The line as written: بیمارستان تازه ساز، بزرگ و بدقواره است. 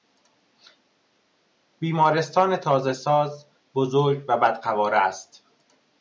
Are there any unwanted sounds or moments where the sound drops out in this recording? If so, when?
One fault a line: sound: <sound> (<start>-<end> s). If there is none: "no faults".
no faults